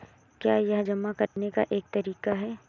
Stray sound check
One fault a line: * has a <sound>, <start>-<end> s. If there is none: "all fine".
* has a dropout, 1.3-1.4 s